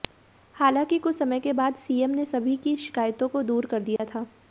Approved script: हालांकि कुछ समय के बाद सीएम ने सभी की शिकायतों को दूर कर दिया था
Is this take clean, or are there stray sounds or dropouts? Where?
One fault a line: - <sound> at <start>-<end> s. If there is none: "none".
- dropout at 4.0-4.0 s